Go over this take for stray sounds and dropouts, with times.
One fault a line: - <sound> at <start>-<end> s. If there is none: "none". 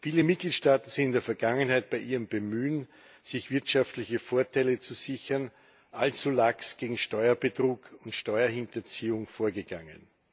none